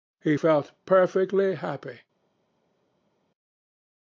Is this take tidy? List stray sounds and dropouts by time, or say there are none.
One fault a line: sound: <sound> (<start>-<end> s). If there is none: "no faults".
no faults